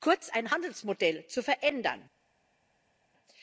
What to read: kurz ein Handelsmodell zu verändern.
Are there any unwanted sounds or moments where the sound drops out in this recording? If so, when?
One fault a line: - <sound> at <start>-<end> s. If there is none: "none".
none